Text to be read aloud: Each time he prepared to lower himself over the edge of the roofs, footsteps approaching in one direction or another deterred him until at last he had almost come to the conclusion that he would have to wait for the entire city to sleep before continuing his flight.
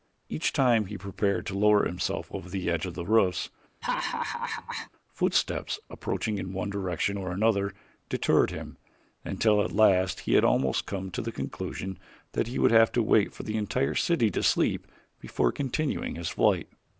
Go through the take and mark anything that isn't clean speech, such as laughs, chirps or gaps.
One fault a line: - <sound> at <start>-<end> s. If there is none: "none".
- laugh at 3.8-4.9 s